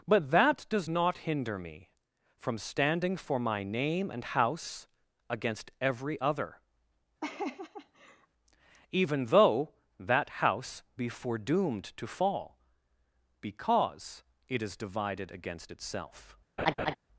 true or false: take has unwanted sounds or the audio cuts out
true